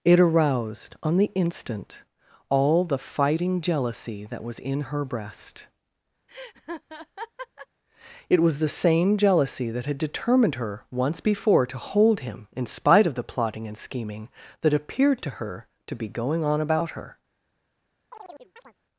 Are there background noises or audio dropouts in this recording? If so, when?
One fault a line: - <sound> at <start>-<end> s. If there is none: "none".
- laugh at 6.3-7.7 s
- chirp at 18.1-18.7 s